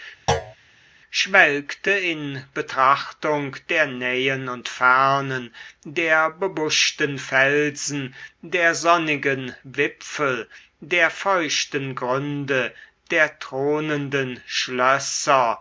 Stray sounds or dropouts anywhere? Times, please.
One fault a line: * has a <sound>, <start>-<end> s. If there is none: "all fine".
* has a thud, 0.3-0.6 s